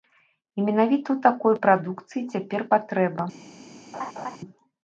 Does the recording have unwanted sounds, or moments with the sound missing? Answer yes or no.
yes